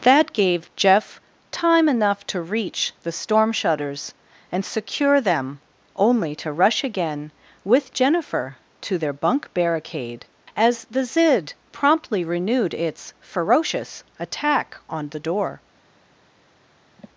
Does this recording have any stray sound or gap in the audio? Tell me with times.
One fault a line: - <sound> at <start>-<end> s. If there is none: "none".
- sigh at 17.0-17.1 s